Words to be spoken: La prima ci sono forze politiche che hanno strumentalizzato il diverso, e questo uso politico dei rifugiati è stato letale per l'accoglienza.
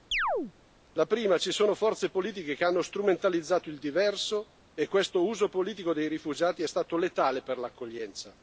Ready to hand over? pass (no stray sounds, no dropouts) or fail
fail